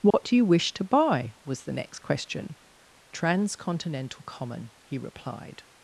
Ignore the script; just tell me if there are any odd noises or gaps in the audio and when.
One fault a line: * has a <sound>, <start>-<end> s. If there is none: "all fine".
* has a dropout, 0.1-0.1 s